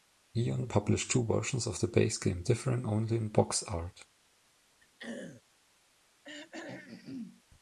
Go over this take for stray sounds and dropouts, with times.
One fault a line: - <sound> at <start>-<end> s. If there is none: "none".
- throat clearing at 4.8-5.4 s
- throat clearing at 6.2-7.4 s